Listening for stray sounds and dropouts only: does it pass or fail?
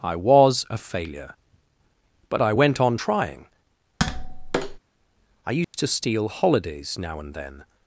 fail